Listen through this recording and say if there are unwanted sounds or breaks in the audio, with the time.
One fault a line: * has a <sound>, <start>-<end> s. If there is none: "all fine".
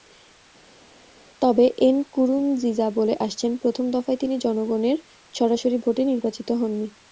all fine